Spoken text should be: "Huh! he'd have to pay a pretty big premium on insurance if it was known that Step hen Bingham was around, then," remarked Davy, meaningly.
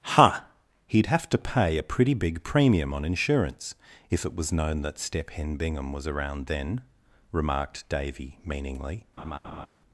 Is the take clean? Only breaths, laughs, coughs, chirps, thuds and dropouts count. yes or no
no